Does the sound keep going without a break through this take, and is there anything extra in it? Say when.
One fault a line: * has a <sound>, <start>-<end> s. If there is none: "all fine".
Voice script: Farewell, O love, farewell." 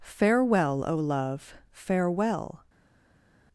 all fine